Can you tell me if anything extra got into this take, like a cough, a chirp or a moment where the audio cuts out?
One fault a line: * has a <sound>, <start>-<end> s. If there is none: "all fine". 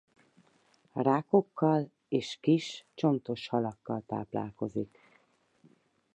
all fine